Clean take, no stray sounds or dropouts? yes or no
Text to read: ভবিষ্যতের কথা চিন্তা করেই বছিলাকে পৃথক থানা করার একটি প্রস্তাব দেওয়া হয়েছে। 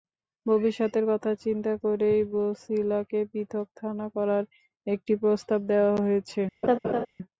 no